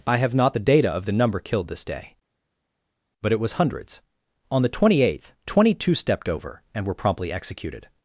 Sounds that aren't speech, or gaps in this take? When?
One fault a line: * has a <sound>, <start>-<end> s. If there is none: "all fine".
all fine